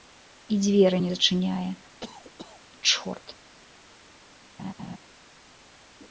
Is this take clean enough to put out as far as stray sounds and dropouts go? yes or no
no